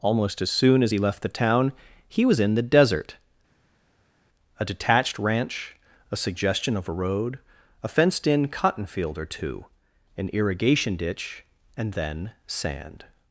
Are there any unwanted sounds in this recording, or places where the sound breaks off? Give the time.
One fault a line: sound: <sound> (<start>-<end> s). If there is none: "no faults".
no faults